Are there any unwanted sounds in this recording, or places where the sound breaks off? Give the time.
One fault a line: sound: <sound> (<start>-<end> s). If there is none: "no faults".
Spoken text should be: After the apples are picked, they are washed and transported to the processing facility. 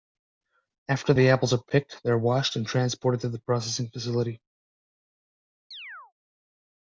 sound: chirp (5.7-6.1 s)